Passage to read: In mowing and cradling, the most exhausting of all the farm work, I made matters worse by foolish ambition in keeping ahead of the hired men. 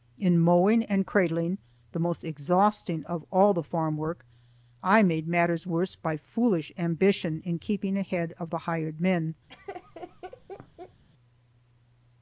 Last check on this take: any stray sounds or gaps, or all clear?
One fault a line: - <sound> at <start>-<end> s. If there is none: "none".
- laugh at 9.5-11.0 s